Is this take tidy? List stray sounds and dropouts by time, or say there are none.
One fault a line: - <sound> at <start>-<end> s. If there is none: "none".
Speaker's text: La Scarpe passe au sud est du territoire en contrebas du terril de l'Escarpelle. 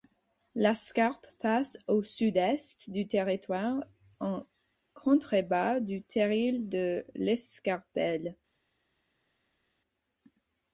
none